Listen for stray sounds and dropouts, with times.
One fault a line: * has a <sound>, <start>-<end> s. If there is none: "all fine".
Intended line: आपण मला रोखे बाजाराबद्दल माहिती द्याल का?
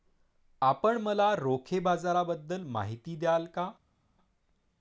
all fine